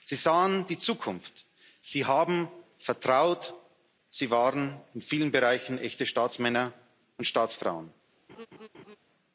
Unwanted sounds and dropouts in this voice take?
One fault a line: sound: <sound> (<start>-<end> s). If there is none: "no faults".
sound: laugh (8.3-9.0 s)